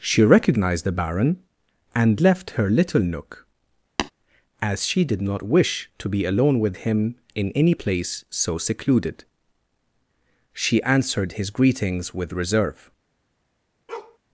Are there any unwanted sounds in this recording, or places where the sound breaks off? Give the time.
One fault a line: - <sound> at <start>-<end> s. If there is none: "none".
- tap at 4.0-4.1 s
- bark at 13.9-14.2 s